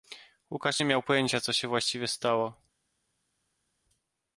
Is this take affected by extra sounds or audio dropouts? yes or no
no